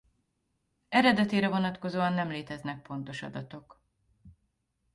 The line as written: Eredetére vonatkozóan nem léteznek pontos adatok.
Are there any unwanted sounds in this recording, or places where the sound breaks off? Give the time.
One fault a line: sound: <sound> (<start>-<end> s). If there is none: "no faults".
no faults